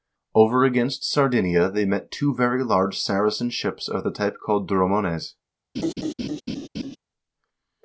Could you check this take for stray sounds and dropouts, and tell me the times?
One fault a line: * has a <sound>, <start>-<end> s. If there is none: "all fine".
* has a laugh, 5.7-7.0 s